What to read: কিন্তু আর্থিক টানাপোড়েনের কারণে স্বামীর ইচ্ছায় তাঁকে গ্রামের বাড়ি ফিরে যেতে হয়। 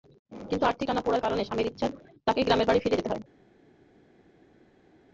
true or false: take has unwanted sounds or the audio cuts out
false